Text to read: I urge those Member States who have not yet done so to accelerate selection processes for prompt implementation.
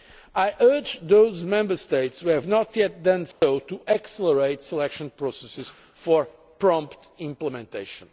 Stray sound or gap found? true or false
true